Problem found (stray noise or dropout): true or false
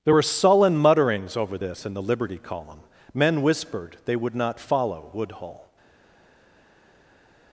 false